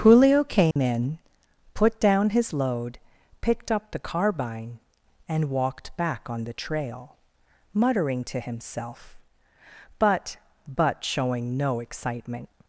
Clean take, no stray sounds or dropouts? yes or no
no